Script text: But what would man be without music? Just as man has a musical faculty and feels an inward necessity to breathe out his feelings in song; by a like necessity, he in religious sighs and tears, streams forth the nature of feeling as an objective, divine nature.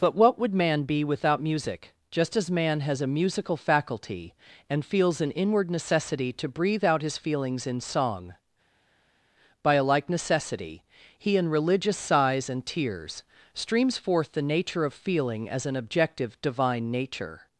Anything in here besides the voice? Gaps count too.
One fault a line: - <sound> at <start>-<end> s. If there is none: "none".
none